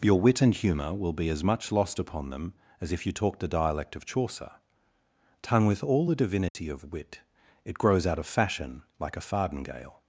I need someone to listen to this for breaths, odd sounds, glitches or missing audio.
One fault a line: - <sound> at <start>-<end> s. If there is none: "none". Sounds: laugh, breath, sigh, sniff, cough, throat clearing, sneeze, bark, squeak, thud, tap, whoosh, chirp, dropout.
- dropout at 6.5-6.5 s